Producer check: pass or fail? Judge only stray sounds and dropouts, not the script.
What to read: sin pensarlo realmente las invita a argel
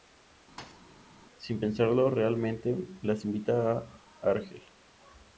fail